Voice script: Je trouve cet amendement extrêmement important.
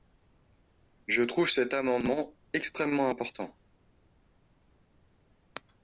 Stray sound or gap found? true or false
false